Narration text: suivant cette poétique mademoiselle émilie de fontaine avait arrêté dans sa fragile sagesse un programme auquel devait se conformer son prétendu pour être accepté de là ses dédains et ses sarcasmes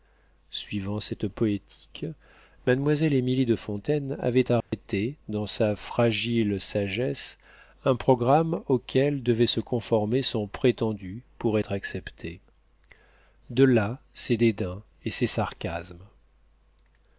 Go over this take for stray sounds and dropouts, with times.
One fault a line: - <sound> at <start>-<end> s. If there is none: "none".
- dropout at 4.6-4.7 s